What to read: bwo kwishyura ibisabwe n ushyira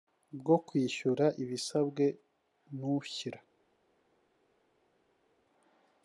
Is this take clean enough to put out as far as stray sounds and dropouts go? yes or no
yes